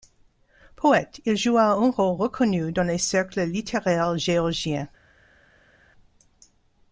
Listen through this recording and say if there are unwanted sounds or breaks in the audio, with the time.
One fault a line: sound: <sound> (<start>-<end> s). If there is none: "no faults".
no faults